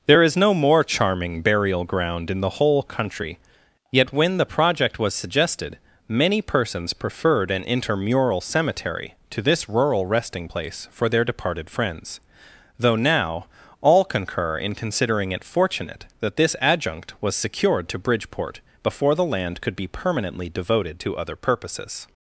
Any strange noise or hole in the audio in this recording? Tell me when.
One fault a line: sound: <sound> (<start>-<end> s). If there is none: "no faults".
no faults